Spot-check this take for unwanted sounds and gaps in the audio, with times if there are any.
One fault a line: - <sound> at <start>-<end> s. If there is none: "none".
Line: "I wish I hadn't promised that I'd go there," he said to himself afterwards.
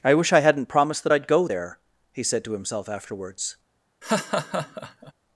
- laugh at 4.0-5.1 s